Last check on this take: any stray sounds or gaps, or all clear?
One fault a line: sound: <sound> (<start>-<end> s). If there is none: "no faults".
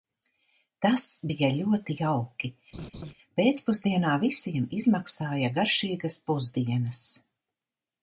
sound: laugh (2.7-3.1 s)